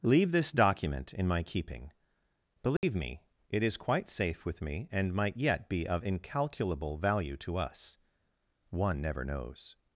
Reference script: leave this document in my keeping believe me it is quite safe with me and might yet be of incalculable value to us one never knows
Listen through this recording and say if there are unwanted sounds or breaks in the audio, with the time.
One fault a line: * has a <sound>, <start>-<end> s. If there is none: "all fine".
* has a dropout, 2.8-2.8 s